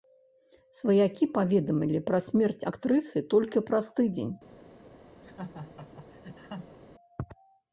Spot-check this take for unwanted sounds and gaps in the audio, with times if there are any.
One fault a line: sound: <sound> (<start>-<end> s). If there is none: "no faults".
sound: laugh (5.2-6.8 s)